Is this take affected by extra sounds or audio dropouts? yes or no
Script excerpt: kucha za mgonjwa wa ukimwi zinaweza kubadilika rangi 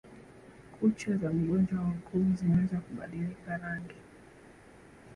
no